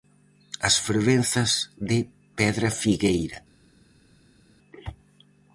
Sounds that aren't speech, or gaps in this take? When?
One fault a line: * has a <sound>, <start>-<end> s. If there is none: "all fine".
all fine